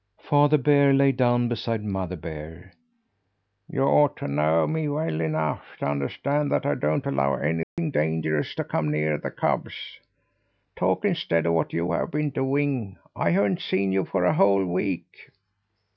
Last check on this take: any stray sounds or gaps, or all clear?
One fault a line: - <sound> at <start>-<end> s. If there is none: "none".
- dropout at 7.6-7.8 s